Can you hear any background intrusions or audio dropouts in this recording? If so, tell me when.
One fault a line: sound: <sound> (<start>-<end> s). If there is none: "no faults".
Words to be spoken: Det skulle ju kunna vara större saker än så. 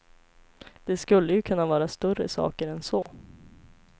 sound: dropout (3.0-3.1 s)